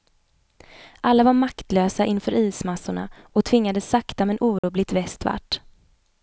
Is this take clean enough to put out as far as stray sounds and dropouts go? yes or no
no